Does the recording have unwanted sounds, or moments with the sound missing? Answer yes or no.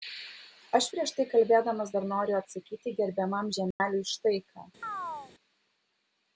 yes